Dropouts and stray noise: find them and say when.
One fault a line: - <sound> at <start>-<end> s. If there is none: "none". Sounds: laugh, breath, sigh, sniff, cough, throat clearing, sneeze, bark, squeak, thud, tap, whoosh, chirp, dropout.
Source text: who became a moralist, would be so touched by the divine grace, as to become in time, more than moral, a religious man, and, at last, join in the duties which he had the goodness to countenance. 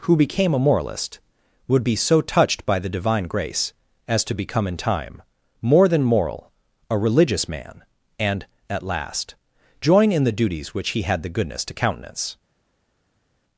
none